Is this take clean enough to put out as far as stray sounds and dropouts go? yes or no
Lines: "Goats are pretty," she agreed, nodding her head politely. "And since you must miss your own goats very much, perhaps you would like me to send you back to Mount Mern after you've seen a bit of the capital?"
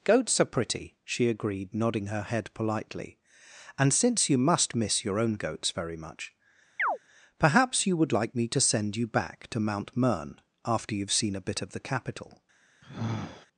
no